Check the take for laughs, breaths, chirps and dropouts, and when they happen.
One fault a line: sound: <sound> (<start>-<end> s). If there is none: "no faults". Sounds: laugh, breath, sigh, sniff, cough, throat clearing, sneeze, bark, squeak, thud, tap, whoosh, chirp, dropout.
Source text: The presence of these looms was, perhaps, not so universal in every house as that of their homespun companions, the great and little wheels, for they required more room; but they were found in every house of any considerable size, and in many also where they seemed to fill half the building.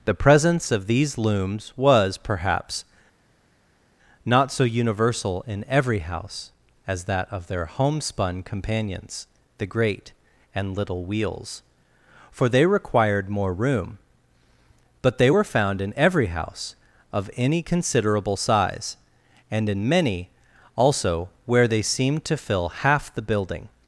no faults